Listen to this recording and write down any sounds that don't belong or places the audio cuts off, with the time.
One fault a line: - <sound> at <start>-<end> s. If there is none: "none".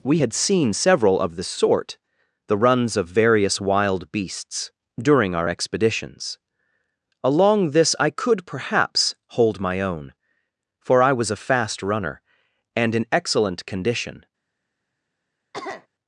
- cough at 15.5-15.9 s